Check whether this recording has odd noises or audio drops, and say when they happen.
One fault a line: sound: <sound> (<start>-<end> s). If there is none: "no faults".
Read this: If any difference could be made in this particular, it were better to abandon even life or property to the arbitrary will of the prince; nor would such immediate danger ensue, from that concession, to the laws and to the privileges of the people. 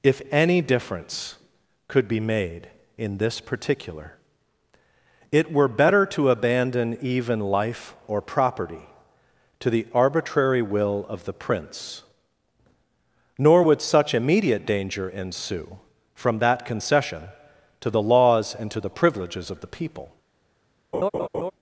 sound: laugh (20.9-21.5 s)